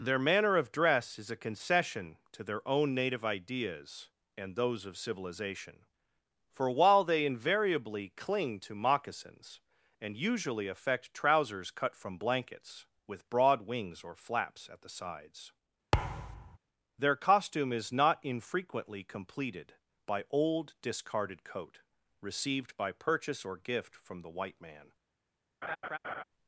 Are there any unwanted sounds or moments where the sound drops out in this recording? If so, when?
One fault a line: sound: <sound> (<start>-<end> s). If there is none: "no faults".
sound: thud (15.9-16.6 s)
sound: laugh (25.6-26.2 s)